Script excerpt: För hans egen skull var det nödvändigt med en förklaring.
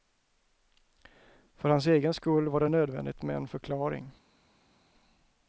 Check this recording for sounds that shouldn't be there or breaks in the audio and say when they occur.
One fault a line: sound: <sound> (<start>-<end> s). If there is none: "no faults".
no faults